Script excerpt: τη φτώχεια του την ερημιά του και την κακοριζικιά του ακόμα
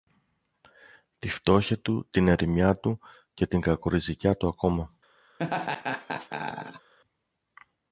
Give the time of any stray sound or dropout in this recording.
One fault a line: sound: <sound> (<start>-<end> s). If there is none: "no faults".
sound: laugh (5.4-6.9 s)